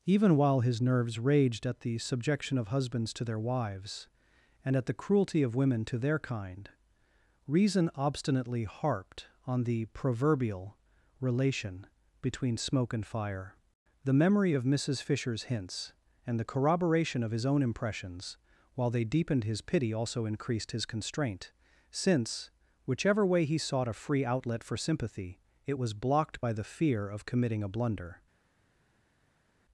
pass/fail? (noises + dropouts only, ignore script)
pass